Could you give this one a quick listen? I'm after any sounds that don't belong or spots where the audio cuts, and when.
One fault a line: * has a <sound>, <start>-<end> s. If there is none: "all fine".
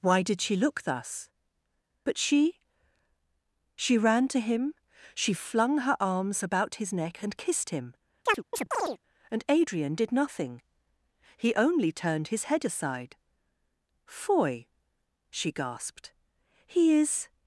* has a chirp, 8.3-9.0 s